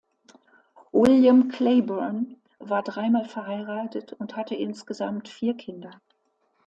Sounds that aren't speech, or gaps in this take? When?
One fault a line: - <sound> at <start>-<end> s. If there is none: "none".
none